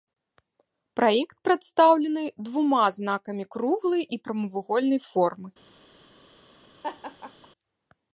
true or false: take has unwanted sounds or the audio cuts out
true